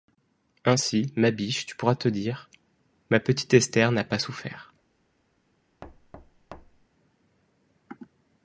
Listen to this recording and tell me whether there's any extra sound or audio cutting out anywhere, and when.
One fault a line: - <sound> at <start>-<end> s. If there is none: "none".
- thud at 5.8-6.9 s